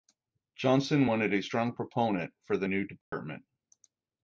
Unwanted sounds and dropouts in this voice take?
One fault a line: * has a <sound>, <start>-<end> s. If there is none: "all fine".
* has a dropout, 3.0-3.1 s